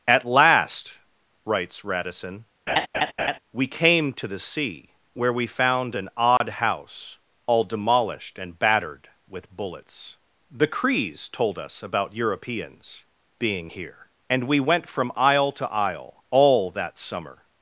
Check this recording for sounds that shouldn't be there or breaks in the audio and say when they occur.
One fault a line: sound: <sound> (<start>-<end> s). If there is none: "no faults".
sound: laugh (2.7-3.4 s)
sound: dropout (6.4-6.4 s)